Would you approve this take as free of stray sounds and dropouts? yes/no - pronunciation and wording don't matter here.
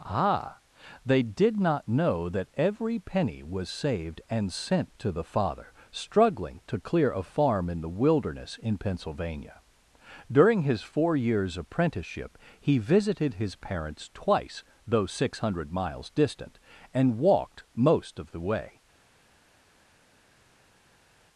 yes